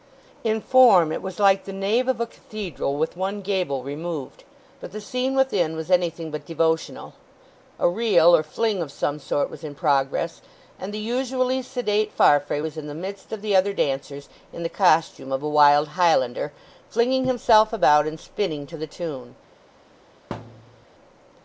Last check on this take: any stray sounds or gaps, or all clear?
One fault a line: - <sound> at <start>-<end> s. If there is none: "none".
- thud at 20.3-20.9 s